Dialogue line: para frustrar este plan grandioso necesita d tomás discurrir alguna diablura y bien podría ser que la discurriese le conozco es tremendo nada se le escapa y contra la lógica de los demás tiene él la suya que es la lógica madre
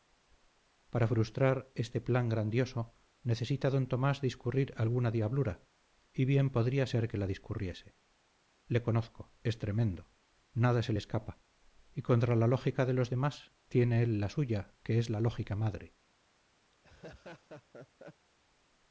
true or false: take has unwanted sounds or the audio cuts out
true